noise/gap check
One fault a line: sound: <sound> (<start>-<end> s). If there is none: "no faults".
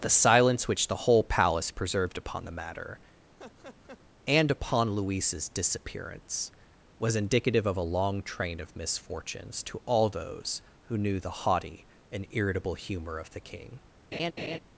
sound: laugh (3.4-4.0 s)
sound: laugh (14.1-14.6 s)